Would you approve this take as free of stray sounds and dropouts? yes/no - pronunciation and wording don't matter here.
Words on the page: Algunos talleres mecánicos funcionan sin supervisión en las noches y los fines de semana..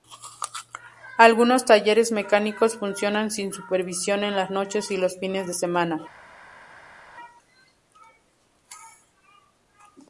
yes